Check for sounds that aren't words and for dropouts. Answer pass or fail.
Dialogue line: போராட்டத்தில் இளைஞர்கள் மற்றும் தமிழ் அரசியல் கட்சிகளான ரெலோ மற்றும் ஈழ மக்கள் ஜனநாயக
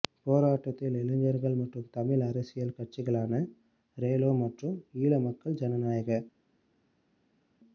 pass